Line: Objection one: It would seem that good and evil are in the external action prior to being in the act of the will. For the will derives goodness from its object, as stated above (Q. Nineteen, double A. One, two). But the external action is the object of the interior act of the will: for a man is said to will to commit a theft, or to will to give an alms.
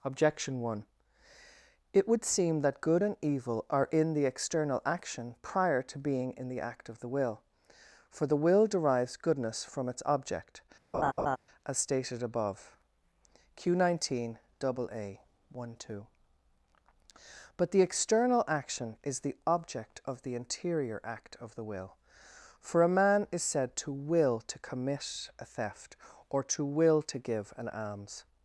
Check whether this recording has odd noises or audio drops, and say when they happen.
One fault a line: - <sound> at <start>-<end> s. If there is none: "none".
- laugh at 10.9-11.4 s